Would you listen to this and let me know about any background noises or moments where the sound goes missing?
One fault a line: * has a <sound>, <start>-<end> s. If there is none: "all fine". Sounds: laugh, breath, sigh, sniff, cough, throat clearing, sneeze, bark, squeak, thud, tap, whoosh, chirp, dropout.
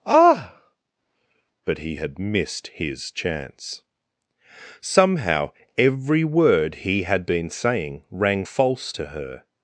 all fine